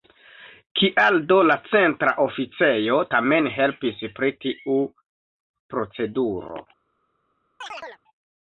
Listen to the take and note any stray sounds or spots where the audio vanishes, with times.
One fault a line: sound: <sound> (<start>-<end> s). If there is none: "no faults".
sound: chirp (7.6-8.0 s)